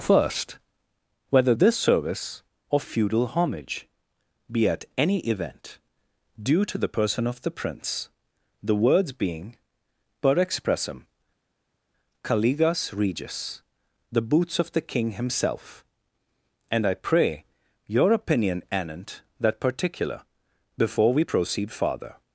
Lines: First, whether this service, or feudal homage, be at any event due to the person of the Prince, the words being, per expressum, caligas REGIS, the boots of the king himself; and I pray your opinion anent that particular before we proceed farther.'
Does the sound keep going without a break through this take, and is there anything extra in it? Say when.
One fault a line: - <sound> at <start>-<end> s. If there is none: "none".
none